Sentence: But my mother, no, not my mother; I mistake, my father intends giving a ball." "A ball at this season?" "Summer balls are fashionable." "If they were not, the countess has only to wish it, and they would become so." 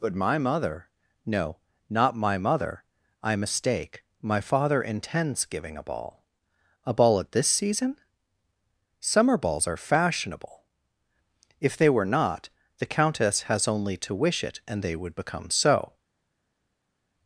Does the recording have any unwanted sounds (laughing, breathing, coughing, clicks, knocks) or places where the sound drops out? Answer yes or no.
no